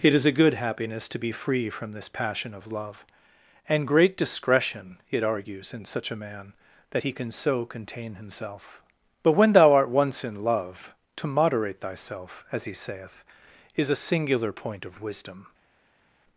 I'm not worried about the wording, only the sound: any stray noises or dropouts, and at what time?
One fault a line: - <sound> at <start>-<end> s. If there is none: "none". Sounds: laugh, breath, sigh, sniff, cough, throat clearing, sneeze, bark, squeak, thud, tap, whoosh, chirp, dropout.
none